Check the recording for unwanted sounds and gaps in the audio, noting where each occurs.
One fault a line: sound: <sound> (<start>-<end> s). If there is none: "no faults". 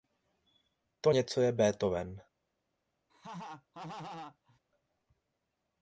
sound: laugh (3.1-4.6 s)